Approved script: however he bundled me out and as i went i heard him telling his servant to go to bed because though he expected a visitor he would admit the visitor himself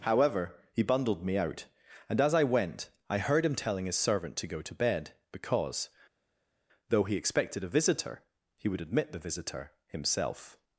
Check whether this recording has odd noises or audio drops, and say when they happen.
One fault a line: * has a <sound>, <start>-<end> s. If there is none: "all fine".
all fine